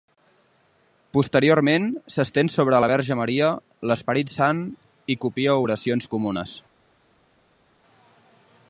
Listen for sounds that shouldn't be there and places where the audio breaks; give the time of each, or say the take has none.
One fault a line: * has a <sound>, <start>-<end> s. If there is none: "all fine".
all fine